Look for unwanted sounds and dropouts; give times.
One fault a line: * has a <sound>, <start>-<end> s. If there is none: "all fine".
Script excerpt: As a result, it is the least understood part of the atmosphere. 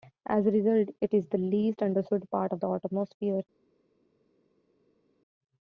all fine